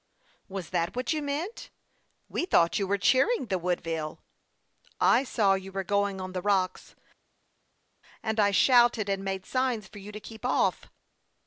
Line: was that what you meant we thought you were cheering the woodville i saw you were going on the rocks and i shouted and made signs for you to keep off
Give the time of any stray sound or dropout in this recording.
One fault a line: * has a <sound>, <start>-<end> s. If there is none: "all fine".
all fine